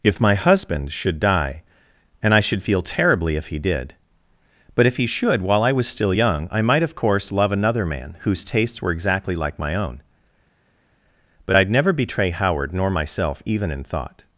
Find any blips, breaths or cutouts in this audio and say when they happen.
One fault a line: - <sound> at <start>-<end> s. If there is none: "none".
none